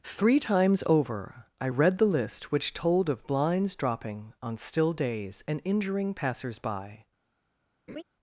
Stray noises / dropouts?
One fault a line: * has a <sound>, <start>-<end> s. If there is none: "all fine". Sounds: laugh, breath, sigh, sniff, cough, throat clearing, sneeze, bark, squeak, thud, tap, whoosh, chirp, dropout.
* has a laugh, 7.9-8.0 s